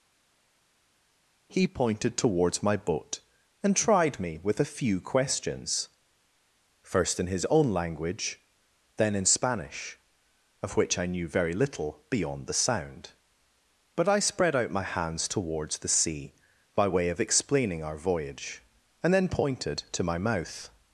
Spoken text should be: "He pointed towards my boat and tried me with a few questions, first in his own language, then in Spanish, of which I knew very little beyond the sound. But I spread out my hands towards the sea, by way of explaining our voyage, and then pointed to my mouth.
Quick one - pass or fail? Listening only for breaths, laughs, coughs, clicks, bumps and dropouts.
pass